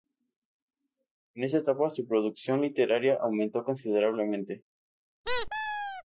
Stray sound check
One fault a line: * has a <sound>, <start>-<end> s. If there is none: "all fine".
* has a squeak, 5.2-6.0 s